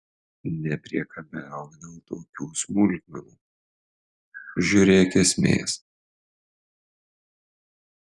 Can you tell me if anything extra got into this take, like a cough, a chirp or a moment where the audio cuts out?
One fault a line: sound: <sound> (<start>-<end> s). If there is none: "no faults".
no faults